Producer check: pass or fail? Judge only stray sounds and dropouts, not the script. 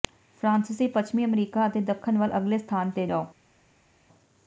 pass